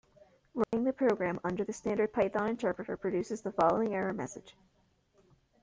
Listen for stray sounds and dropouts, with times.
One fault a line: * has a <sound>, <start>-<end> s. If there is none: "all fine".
* has a dropout, 0.6-0.7 s